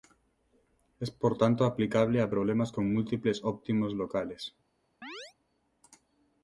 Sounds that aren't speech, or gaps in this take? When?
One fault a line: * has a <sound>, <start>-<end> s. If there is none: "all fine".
* has a chirp, 5.0-5.3 s